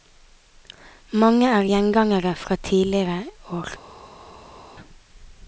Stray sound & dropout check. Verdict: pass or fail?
pass